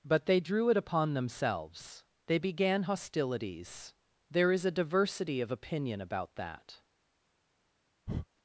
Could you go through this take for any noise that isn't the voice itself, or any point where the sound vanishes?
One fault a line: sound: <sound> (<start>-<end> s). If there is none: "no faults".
sound: breath (8.1-8.3 s)